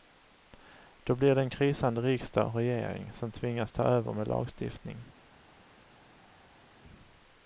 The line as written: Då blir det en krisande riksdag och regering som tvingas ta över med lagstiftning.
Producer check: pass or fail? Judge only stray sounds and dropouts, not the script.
pass